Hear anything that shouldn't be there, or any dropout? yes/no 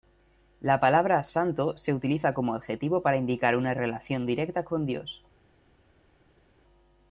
no